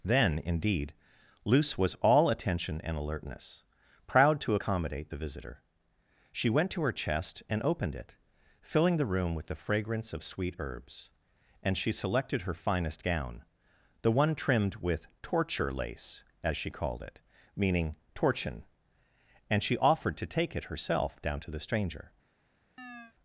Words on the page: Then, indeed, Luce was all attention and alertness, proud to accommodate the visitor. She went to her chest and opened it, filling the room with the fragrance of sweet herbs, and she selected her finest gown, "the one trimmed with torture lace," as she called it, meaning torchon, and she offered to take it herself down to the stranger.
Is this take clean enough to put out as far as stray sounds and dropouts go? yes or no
no